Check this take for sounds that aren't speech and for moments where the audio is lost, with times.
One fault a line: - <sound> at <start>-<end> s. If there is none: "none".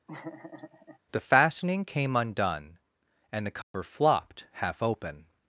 - laugh at 0.1-1.0 s
- dropout at 3.6-3.7 s